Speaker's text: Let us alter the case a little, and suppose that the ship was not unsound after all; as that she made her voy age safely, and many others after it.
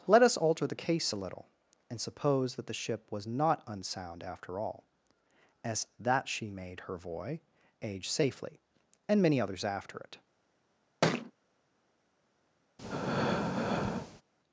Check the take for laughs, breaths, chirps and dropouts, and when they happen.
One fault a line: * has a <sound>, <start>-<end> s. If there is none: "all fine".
* has a thud, 11.0-11.3 s
* has a breath, 12.8-14.2 s